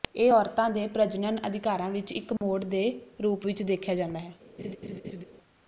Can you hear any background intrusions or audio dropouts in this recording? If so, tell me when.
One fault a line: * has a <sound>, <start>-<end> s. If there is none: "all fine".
* has a dropout, 2.4-2.4 s
* has a laugh, 4.6-5.2 s